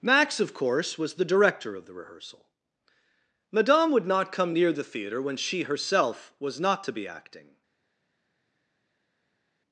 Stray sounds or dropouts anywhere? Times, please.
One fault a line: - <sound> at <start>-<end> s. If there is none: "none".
none